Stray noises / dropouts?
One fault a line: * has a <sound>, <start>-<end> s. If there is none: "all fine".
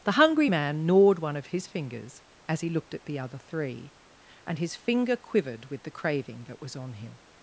all fine